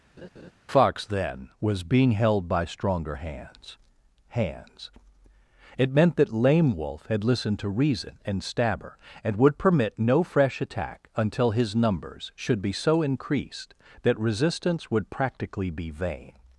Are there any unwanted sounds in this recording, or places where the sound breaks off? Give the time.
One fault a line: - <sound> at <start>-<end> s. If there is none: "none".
- laugh at 0.2-0.5 s